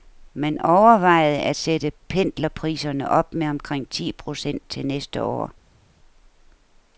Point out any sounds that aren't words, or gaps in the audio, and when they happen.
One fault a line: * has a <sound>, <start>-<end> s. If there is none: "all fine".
all fine